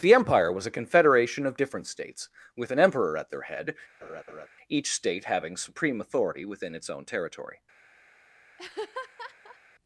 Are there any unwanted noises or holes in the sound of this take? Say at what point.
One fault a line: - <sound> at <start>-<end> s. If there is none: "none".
- laugh at 4.0-4.5 s
- laugh at 8.6-9.6 s